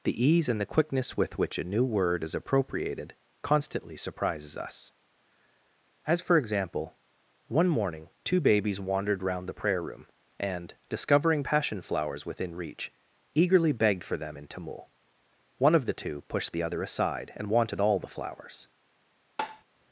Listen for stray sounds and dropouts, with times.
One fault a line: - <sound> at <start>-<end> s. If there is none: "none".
- tap at 19.4-19.6 s